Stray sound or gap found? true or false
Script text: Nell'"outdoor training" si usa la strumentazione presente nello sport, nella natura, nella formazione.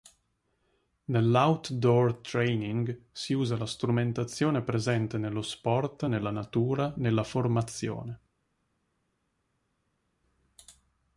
false